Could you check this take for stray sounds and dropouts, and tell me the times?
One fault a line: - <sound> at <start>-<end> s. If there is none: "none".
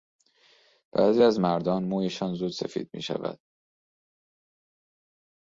none